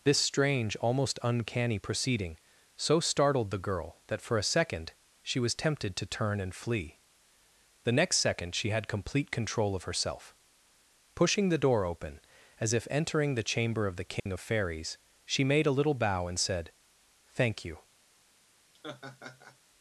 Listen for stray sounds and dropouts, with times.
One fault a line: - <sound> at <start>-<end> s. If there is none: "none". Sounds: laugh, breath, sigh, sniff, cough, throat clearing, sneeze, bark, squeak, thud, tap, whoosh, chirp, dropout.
- dropout at 14.2-14.3 s
- laugh at 18.7-19.6 s